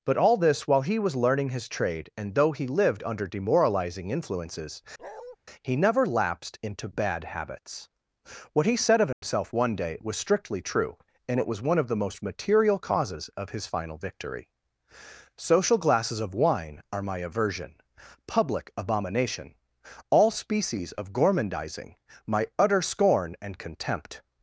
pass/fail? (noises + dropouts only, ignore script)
fail